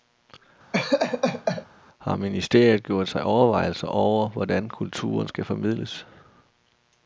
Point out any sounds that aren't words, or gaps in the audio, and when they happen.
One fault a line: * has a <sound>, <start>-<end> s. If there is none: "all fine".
* has a laugh, 0.7-1.7 s